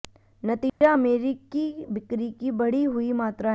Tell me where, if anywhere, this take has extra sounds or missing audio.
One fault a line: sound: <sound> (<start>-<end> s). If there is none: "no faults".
sound: dropout (0.7-0.8 s)